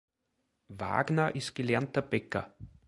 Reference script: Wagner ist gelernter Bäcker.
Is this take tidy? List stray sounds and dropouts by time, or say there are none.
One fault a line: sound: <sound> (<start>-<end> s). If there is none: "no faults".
no faults